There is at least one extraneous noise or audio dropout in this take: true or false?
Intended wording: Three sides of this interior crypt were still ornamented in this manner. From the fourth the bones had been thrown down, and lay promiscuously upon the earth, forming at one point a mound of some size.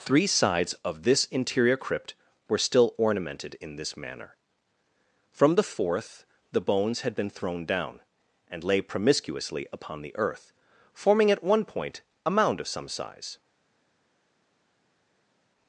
false